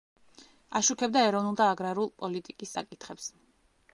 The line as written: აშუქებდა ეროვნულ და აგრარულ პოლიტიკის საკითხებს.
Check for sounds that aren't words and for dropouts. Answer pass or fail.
pass